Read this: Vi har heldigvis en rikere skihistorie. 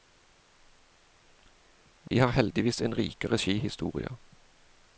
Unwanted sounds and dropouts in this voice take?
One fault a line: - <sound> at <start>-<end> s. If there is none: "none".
- dropout at 2.1-2.1 s